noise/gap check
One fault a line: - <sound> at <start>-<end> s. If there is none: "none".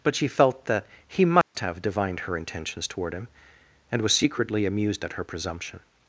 - dropout at 1.4-1.5 s